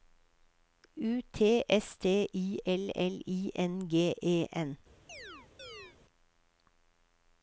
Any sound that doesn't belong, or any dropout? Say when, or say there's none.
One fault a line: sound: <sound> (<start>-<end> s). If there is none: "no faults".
sound: chirp (5.1-6.0 s)